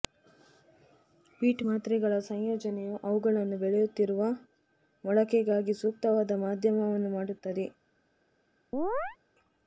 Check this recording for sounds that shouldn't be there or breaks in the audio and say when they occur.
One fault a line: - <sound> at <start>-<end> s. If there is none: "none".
- chirp at 8.7-9.2 s